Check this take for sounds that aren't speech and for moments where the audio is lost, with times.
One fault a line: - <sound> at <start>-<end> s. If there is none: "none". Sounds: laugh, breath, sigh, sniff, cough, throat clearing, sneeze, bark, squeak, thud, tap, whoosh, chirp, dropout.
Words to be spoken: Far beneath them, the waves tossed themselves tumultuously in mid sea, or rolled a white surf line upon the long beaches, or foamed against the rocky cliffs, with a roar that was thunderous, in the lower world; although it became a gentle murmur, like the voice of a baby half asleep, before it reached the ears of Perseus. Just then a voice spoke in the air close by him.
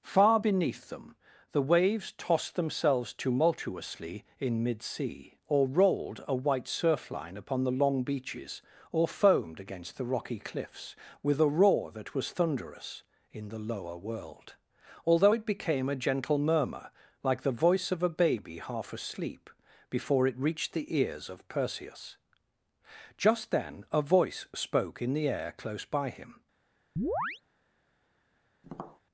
- chirp at 27.0-27.4 s
- tap at 28.6-29.0 s